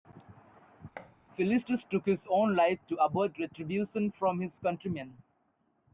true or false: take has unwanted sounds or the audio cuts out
true